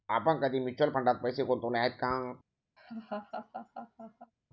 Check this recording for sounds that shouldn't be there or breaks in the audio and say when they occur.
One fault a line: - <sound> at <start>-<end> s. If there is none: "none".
- laugh at 2.8-4.3 s